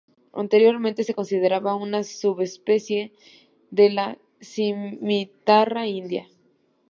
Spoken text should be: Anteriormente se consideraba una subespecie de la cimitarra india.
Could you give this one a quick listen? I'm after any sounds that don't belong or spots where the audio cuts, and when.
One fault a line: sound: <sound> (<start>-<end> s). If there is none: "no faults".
no faults